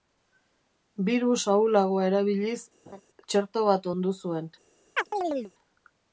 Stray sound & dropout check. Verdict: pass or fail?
fail